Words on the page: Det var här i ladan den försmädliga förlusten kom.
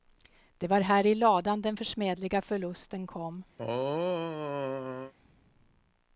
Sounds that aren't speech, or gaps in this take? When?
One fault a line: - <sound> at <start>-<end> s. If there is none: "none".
- throat clearing at 3.6-5.1 s